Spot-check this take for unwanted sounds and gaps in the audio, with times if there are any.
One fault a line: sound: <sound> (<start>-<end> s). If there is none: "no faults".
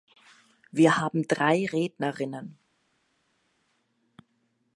no faults